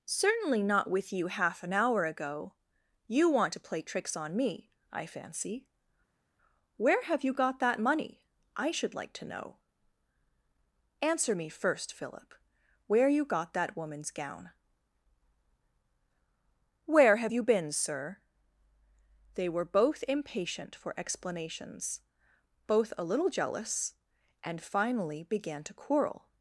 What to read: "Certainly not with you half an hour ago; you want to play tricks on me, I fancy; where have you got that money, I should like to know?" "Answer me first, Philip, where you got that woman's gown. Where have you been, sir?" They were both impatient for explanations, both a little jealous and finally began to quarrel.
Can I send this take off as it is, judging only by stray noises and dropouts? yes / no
yes